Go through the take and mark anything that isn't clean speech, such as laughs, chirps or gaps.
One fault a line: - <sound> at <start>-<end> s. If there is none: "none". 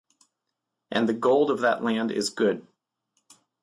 none